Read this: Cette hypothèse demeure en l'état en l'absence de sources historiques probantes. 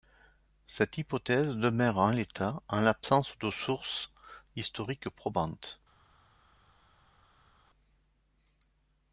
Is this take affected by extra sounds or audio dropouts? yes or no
no